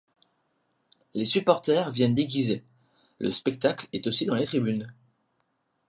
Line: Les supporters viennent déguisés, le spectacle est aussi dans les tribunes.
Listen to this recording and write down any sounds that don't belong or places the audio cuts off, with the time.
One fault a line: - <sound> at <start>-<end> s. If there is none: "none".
none